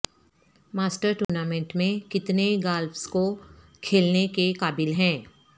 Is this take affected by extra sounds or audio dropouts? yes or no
yes